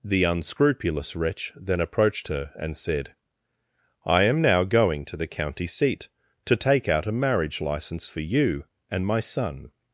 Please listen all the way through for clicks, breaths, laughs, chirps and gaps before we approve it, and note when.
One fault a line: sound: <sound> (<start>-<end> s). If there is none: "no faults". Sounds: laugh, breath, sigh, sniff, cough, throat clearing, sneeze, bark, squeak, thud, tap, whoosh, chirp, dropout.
no faults